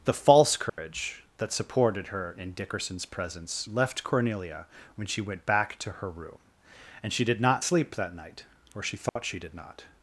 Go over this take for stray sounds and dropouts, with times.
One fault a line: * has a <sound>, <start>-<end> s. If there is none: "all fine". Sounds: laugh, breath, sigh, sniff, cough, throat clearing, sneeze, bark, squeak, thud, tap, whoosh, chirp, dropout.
* has a dropout, 0.7-0.8 s
* has a dropout, 9.1-9.2 s